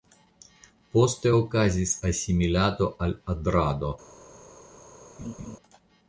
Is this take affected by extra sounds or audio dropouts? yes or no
yes